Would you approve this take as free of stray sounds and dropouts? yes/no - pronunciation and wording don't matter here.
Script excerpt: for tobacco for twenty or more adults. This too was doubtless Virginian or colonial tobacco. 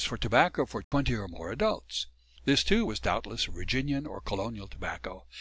no